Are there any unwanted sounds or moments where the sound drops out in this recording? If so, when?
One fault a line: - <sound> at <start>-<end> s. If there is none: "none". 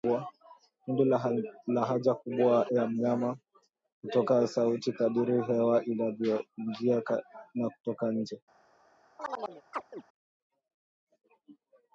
- chirp at 9.2-10.0 s